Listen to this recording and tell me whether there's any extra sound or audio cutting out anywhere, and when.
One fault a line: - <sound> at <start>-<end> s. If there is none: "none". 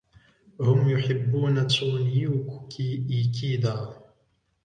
none